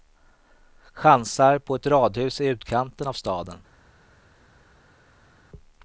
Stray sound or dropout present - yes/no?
no